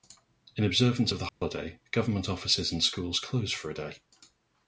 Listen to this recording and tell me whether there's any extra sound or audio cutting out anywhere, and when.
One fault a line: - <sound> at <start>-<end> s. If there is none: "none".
- dropout at 1.3-1.4 s